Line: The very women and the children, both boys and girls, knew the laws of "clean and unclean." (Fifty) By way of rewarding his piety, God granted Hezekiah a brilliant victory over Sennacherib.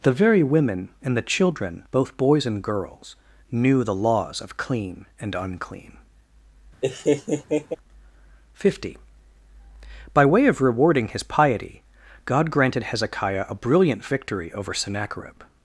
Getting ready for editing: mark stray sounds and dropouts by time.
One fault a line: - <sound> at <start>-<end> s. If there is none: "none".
- laugh at 6.8-7.8 s